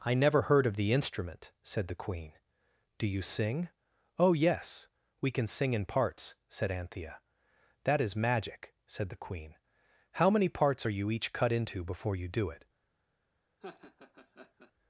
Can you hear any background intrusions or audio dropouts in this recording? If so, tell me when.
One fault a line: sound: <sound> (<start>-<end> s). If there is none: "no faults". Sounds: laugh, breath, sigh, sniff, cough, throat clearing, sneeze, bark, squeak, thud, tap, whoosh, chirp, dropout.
sound: laugh (13.6-14.7 s)